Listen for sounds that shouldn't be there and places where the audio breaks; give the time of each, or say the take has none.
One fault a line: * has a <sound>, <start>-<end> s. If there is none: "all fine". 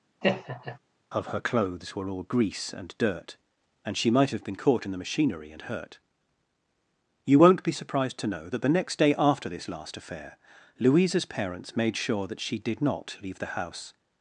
* has a laugh, 0.2-0.8 s